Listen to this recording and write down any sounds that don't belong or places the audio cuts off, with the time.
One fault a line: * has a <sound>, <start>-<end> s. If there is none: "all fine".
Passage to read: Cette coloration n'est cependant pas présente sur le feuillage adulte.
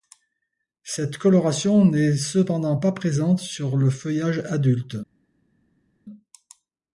all fine